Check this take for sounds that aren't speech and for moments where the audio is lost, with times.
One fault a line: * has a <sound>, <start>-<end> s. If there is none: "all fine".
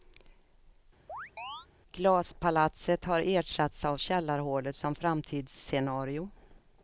* has a chirp, 1.1-1.7 s